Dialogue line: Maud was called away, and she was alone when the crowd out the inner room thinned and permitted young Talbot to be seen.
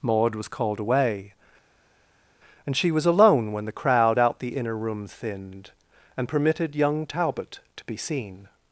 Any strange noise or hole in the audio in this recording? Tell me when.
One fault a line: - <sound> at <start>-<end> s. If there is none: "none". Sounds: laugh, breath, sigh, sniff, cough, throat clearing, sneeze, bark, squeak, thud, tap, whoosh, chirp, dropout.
none